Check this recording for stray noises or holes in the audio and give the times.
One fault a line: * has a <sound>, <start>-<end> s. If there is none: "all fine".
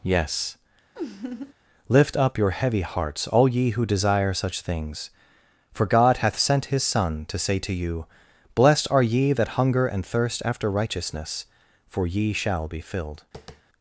* has a laugh, 1.0-1.5 s
* has a tap, 13.3-13.6 s